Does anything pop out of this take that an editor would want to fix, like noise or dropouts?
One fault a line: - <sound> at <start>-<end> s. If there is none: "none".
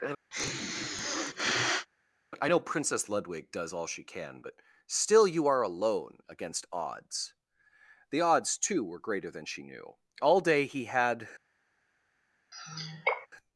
- sniff at 0.3-1.9 s
- sigh at 12.5-13.3 s